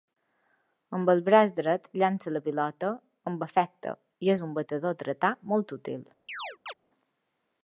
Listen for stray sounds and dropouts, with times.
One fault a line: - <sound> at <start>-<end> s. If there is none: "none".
- chirp at 6.3-6.7 s